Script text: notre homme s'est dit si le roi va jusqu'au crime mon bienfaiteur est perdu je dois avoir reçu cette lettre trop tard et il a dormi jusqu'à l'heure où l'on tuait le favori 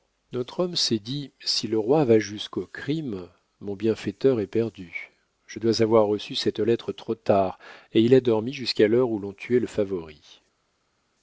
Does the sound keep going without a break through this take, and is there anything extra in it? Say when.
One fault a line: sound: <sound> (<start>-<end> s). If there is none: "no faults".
no faults